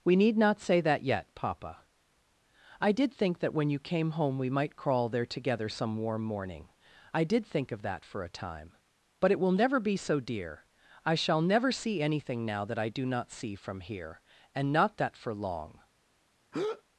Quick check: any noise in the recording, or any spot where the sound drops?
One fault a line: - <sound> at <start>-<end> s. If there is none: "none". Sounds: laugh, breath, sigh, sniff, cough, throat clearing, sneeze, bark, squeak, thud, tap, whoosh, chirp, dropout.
- breath at 16.5-16.8 s